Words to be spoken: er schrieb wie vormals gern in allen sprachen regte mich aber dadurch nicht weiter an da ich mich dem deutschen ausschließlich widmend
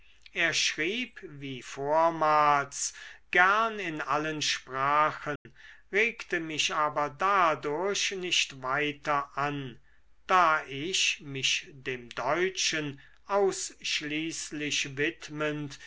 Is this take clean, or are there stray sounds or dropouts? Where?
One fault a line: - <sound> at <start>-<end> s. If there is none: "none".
- dropout at 5.4-5.5 s